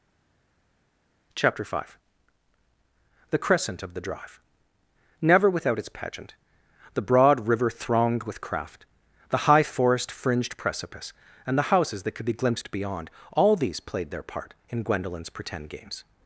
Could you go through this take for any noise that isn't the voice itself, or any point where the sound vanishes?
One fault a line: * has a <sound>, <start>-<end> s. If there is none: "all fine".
all fine